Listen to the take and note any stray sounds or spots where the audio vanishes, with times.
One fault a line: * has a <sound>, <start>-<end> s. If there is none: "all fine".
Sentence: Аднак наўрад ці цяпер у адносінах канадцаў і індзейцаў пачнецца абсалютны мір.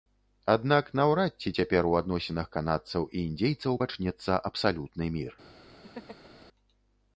* has a laugh, 5.8-6.5 s